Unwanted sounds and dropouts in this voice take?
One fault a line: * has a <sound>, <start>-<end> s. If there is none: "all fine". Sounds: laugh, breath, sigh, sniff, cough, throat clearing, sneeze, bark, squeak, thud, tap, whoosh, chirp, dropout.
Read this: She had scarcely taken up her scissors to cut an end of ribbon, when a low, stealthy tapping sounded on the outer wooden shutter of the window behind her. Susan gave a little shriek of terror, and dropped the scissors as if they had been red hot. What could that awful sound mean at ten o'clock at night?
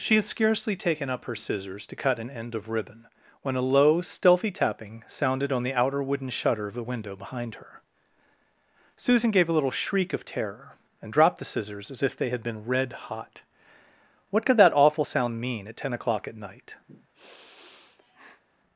* has a sniff, 16.9-18.4 s